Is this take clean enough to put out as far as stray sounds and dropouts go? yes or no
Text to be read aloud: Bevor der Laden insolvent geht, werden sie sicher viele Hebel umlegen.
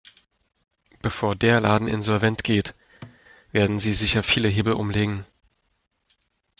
no